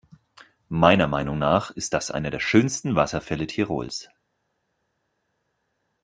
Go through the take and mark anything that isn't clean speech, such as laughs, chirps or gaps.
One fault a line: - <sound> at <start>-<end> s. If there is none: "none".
none